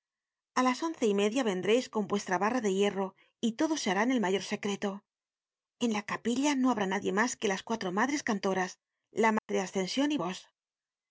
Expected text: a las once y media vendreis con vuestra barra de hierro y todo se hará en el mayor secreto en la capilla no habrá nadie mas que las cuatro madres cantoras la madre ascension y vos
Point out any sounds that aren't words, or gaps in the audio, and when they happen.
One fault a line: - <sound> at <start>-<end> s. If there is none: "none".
- dropout at 9.4-9.5 s